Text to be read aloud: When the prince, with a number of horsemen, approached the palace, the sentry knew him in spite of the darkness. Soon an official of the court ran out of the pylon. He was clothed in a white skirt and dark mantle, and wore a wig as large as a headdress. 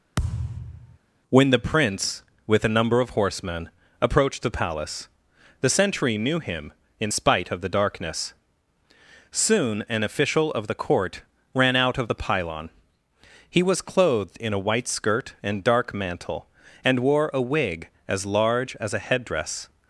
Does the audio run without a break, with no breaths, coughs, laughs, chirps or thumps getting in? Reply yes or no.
no